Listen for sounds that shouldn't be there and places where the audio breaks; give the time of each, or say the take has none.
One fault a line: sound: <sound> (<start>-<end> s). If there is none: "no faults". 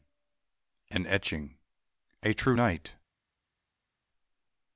no faults